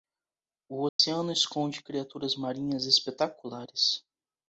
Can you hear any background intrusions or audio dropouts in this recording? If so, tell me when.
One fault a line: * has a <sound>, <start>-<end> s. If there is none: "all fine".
* has a dropout, 0.9-1.0 s